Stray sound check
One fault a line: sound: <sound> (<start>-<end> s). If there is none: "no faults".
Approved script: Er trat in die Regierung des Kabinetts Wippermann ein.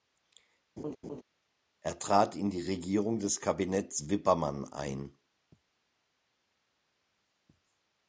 sound: laugh (0.8-1.2 s)